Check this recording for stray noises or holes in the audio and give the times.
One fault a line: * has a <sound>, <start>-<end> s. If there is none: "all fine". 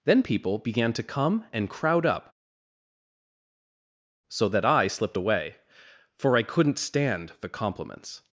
all fine